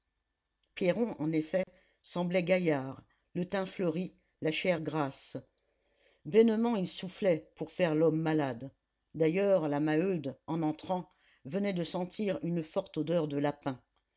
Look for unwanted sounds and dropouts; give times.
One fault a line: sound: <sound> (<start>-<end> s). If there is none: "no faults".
sound: dropout (1.6-1.7 s)